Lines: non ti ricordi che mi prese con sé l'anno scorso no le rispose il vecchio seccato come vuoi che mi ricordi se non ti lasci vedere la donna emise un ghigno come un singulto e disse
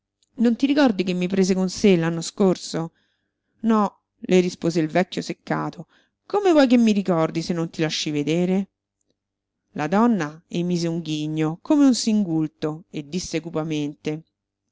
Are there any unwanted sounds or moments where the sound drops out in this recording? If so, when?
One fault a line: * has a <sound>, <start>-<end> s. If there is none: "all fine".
all fine